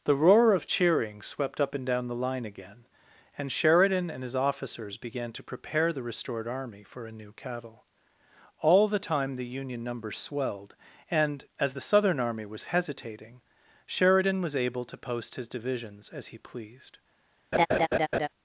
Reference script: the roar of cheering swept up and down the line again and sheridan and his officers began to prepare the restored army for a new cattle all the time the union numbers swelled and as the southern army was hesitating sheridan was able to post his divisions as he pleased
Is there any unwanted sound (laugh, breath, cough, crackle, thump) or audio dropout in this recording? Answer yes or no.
yes